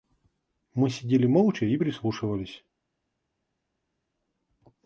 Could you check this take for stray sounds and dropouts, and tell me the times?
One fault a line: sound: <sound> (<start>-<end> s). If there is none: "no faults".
no faults